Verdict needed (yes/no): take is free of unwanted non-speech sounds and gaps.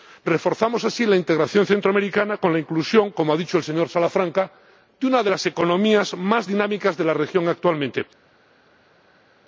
yes